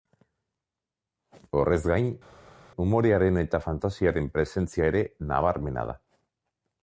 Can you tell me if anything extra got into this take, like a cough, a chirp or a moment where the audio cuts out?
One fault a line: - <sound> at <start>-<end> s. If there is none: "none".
none